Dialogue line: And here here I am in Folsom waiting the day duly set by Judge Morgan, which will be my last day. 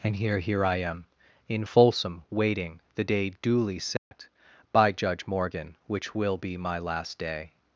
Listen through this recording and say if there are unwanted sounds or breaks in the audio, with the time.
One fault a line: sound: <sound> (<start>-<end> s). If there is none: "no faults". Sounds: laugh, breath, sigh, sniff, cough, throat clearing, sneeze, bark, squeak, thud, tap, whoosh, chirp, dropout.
sound: dropout (4.0-4.1 s)